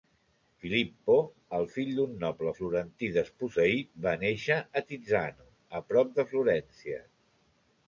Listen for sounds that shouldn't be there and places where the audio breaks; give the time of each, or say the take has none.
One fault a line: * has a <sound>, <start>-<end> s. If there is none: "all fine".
all fine